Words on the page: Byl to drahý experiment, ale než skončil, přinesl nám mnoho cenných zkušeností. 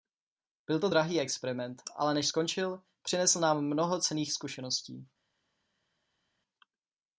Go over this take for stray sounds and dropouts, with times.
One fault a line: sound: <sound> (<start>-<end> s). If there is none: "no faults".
no faults